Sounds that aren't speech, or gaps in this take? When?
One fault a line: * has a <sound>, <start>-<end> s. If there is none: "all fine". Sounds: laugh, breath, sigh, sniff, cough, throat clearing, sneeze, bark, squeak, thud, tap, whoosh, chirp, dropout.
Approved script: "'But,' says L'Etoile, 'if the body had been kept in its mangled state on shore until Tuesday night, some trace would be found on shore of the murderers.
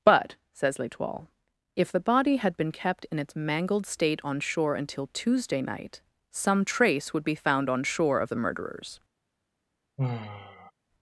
* has a sigh, 10.0-10.7 s